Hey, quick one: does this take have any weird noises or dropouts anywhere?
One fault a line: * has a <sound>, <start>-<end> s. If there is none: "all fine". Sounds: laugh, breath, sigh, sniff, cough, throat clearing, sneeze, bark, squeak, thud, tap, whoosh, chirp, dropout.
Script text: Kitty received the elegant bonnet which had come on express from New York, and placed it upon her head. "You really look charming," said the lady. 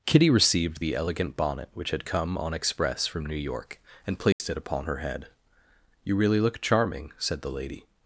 * has a dropout, 4.3-4.4 s